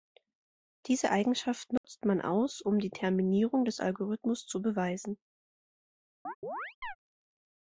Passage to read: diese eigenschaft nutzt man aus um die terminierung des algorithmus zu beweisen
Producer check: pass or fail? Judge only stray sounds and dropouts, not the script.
fail